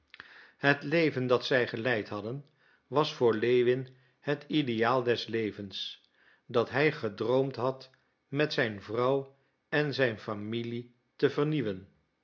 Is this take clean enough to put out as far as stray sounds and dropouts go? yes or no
yes